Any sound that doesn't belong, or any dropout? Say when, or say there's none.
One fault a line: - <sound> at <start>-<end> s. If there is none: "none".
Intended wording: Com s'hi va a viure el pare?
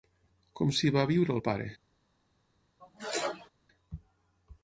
- sneeze at 2.8-3.5 s